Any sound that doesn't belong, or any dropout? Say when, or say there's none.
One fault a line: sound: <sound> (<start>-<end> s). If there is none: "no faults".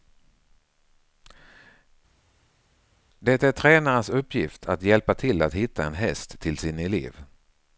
no faults